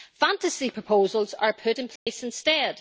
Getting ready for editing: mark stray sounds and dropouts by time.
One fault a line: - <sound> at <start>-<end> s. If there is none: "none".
- dropout at 2.0-2.1 s